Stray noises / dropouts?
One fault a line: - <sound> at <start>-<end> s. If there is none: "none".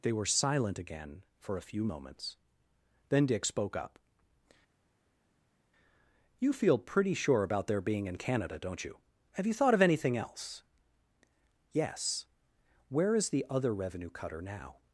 none